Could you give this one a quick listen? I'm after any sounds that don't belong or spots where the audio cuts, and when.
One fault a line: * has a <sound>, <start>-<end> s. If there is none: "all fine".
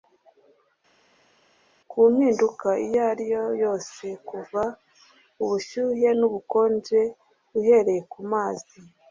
all fine